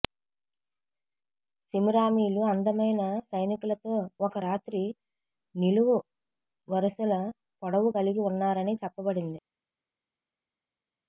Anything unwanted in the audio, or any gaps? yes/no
no